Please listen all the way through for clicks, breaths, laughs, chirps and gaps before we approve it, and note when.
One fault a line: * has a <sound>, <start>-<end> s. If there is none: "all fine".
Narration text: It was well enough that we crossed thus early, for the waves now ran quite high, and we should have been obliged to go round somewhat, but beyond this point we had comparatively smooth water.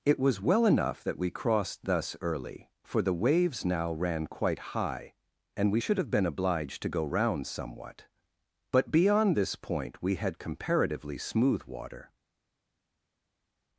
all fine